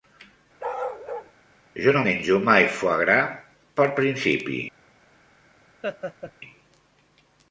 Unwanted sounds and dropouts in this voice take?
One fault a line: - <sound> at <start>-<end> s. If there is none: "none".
- bark at 0.6-1.3 s
- laugh at 5.8-6.3 s